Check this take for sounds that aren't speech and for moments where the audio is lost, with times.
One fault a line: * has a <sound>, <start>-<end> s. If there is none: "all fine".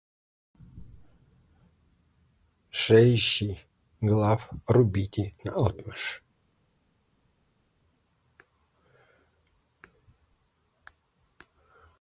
all fine